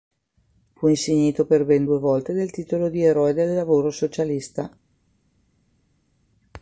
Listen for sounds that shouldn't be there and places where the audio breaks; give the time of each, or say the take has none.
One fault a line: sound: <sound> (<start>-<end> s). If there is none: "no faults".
no faults